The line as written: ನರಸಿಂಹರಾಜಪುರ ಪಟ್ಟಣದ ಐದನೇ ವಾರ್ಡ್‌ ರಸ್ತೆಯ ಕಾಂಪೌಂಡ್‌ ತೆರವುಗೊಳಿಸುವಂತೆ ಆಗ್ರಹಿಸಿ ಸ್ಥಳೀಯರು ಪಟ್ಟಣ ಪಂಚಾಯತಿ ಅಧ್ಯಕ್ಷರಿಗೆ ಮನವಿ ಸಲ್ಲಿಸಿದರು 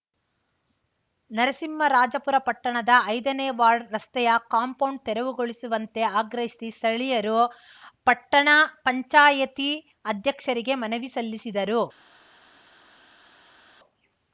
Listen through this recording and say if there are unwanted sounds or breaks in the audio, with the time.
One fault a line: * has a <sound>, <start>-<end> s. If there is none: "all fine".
all fine